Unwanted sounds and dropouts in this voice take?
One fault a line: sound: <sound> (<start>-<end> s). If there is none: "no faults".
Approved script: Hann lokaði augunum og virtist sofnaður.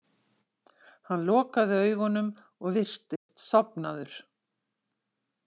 sound: dropout (3.2-3.3 s)